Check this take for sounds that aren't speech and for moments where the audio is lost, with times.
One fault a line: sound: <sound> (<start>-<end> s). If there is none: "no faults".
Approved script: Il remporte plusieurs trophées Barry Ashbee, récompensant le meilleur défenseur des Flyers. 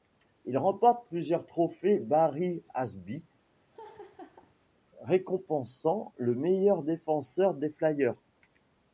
sound: laugh (3.7-4.5 s)